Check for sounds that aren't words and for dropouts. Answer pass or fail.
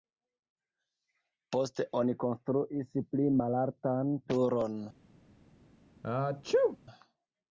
fail